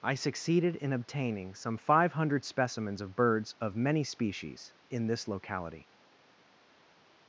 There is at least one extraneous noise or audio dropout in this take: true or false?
false